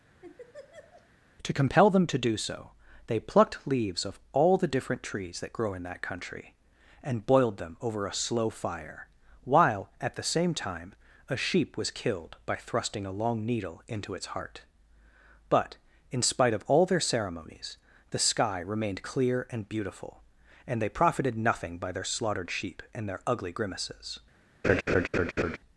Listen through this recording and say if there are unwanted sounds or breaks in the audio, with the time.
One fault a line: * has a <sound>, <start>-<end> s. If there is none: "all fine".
* has a laugh, 0.2-1.1 s
* has a laugh, 24.6-25.6 s